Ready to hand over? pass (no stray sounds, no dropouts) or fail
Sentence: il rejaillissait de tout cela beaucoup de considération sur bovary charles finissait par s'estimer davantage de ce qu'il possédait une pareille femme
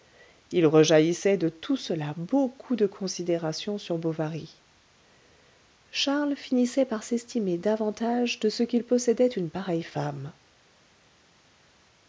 pass